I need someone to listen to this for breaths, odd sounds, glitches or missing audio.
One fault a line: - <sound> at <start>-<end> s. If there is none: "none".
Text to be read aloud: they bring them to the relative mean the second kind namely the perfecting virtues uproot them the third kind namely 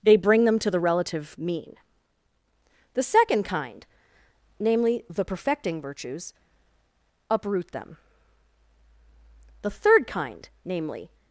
none